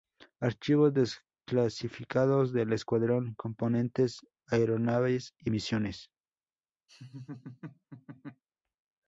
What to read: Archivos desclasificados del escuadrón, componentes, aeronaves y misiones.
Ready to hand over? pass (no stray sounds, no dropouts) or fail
fail